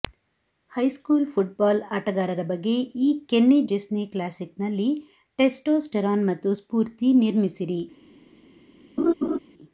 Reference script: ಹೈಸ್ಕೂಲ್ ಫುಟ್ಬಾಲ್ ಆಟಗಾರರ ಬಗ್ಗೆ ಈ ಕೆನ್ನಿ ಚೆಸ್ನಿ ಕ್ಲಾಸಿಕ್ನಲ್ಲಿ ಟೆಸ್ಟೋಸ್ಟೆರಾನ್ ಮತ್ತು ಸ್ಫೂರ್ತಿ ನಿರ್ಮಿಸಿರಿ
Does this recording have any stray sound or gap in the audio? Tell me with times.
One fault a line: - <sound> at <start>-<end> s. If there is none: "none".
- laugh at 9.0-9.4 s